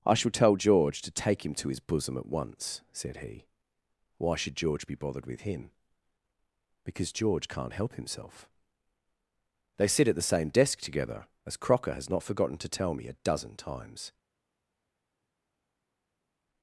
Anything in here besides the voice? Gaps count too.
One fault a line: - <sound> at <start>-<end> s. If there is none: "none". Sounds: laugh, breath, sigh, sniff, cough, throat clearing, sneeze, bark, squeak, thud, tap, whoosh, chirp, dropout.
none